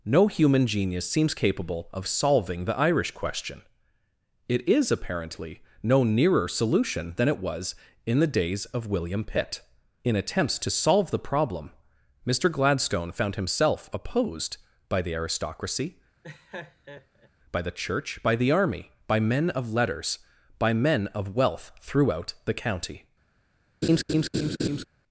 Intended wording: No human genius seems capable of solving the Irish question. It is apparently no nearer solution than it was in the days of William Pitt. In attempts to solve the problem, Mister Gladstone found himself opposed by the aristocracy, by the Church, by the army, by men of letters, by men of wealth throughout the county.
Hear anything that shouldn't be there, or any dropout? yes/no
yes